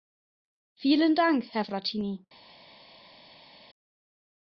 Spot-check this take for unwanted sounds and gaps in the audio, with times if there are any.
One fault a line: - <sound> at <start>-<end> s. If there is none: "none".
none